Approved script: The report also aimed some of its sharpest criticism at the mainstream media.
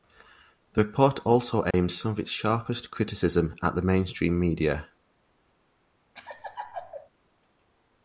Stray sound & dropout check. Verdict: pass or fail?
fail